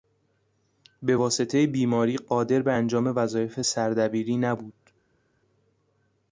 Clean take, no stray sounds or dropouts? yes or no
yes